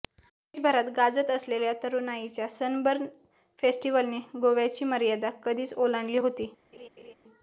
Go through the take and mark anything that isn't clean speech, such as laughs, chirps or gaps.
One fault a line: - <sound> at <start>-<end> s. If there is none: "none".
- laugh at 6.7-7.1 s